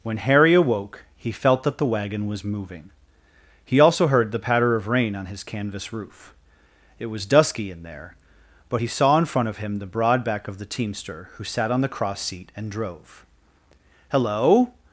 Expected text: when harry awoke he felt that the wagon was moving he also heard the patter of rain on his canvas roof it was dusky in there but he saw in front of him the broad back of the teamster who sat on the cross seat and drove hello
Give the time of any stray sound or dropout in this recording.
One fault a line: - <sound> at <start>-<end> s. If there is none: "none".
none